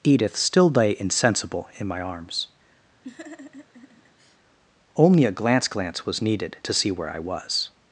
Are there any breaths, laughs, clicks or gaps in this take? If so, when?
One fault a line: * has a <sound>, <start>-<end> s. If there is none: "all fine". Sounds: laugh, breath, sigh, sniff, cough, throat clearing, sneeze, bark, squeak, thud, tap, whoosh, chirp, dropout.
* has a laugh, 3.0-4.4 s